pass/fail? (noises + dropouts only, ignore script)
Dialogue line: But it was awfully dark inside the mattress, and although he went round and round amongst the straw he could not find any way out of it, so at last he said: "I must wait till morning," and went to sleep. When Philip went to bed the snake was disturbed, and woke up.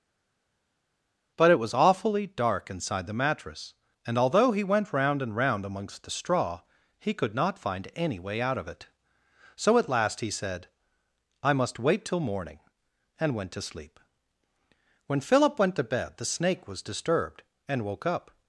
pass